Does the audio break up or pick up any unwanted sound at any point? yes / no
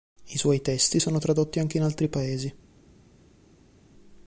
no